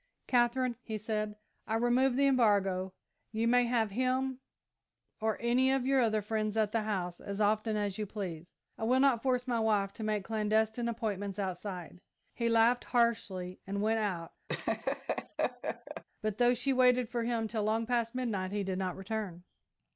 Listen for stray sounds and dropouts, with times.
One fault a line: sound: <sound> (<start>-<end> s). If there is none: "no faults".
sound: laugh (14.5-16.0 s)